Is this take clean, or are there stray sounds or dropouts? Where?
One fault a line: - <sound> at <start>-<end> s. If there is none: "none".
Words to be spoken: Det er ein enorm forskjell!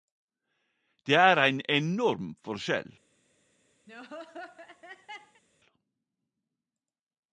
- laugh at 3.9-5.4 s